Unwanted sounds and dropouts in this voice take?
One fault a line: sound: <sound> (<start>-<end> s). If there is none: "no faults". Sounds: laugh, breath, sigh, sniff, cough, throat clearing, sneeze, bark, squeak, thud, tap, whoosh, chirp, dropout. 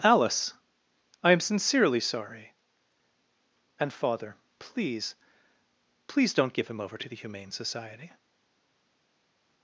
no faults